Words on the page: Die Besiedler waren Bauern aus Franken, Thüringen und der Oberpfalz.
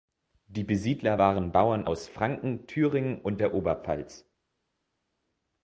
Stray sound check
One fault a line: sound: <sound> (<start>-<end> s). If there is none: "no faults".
no faults